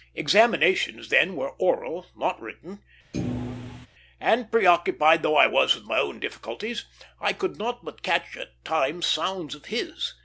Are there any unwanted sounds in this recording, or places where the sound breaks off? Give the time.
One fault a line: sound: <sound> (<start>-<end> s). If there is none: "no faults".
sound: thud (3.1-3.9 s)